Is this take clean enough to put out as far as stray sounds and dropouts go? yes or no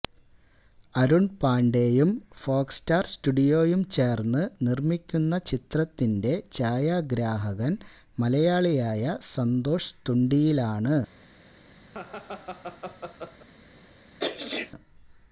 no